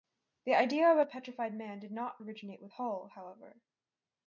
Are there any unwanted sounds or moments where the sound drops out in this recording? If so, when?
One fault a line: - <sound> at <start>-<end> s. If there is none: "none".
none